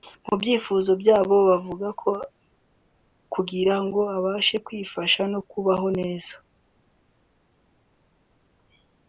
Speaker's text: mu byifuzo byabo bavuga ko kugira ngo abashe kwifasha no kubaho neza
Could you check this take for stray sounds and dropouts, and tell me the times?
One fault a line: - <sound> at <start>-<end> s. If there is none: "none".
none